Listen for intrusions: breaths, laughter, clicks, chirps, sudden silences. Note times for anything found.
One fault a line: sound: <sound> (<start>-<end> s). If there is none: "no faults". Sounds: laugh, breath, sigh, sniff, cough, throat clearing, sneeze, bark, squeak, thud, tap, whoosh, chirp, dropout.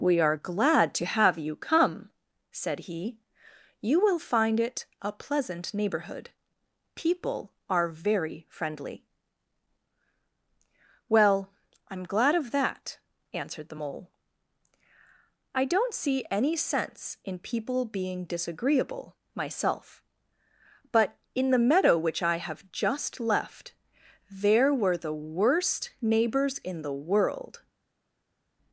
no faults